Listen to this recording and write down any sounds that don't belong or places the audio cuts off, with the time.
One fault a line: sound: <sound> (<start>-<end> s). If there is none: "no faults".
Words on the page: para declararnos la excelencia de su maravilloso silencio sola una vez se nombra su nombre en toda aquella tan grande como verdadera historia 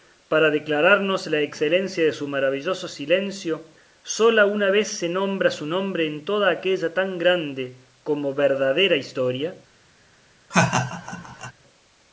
sound: laugh (10.5-11.5 s)